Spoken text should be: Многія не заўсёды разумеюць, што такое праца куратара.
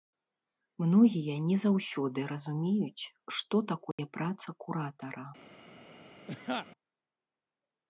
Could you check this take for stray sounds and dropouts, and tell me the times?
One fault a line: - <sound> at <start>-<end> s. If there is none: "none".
- dropout at 3.9-4.0 s
- laugh at 6.3-6.7 s